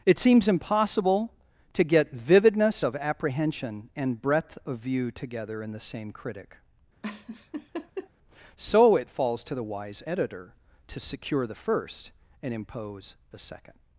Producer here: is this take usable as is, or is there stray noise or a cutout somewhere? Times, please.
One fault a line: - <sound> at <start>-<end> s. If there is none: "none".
- laugh at 7.0-8.1 s